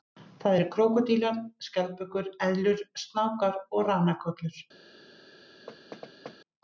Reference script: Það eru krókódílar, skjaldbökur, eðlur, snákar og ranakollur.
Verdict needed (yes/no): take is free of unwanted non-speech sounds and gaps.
no